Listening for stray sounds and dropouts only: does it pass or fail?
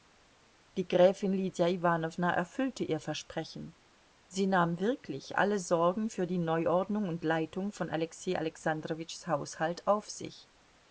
pass